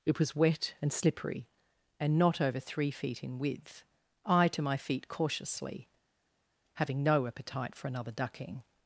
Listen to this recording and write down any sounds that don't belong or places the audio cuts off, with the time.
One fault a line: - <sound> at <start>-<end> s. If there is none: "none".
none